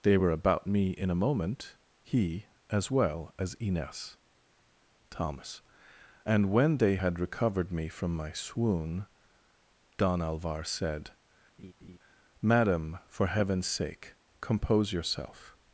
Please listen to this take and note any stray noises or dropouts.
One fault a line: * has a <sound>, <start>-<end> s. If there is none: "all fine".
* has a laugh, 11.6-12.0 s